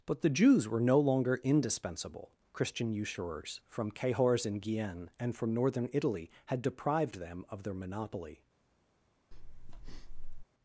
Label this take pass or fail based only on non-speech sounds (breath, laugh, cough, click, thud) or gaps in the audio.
fail